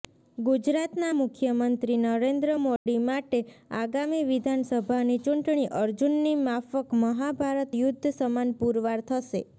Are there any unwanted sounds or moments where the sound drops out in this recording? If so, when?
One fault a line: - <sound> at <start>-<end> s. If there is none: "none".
- dropout at 2.8-2.9 s